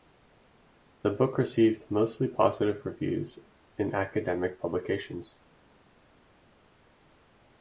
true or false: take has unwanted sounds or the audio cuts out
false